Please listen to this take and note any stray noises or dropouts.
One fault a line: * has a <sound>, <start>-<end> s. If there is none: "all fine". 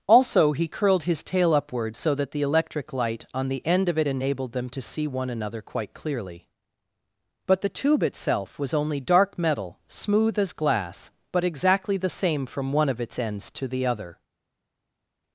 all fine